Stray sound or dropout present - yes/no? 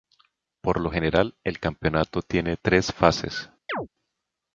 yes